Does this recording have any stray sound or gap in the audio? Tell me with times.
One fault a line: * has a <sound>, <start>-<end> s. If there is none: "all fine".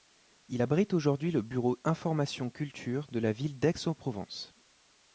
all fine